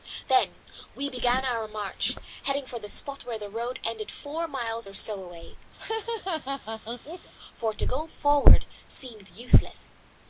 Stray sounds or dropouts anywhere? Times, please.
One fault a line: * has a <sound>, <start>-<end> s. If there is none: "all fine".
* has a laugh, 5.8-7.3 s